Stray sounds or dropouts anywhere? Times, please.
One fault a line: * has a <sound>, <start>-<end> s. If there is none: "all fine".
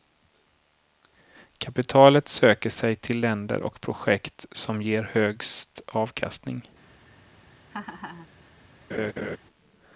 * has a laugh, 7.7-8.3 s
* has a laugh, 8.9-9.4 s